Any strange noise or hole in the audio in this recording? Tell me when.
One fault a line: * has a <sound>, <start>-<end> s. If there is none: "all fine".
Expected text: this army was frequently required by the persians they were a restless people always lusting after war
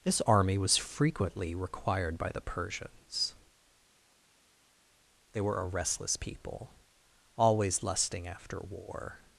all fine